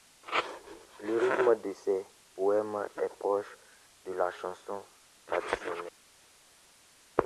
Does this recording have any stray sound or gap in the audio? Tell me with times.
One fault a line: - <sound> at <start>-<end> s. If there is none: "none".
none